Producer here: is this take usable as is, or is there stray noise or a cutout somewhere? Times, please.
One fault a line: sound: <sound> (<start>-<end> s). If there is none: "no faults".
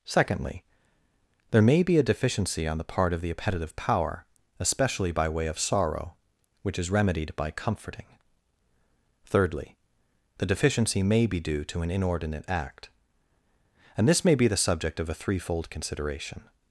no faults